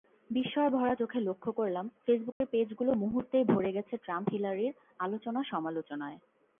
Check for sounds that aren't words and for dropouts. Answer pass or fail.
fail